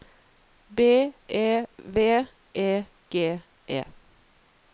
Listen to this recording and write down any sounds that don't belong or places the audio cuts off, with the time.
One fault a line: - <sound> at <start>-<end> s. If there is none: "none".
none